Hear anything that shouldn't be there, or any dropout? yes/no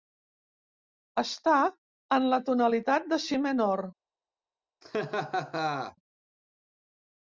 yes